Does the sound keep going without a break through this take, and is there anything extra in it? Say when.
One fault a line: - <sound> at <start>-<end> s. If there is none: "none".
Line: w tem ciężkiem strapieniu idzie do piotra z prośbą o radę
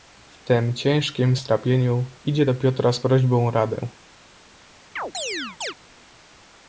- chirp at 5.0-5.7 s